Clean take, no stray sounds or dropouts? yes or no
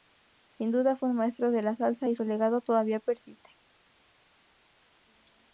yes